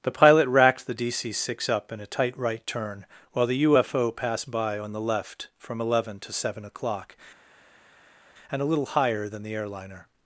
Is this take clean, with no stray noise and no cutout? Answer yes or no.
yes